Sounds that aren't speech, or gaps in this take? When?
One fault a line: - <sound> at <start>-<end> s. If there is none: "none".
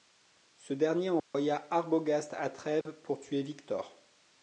- dropout at 1.2-1.3 s
- dropout at 2.8-2.9 s